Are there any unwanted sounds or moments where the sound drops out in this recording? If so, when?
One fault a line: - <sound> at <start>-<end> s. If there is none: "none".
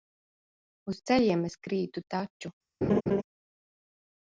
- laugh at 2.8-3.2 s